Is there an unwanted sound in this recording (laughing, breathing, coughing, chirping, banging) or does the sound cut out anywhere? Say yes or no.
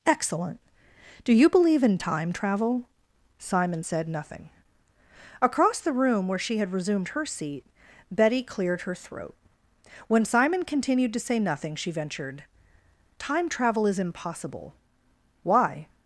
no